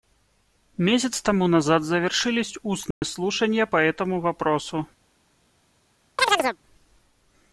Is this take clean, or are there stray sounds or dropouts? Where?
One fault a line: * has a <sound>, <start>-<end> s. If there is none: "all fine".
* has a dropout, 2.9-3.0 s
* has a chirp, 6.2-6.6 s